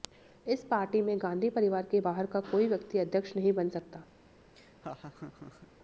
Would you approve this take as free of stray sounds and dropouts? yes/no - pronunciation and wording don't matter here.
no